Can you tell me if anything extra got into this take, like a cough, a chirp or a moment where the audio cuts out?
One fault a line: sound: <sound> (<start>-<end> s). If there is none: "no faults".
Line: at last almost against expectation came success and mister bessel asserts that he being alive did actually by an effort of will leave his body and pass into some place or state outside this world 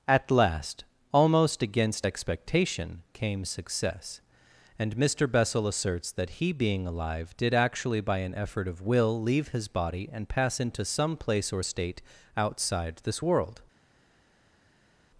no faults